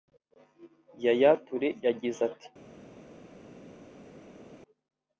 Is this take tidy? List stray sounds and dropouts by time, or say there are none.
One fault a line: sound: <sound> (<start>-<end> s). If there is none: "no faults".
no faults